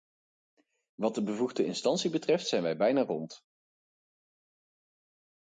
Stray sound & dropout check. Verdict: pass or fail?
pass